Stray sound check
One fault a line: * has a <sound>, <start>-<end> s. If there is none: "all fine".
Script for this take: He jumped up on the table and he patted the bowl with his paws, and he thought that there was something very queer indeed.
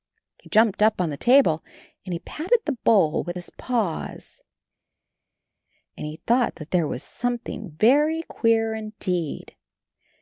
all fine